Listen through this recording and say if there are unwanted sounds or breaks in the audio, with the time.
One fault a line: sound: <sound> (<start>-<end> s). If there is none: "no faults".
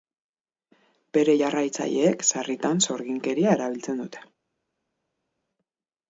no faults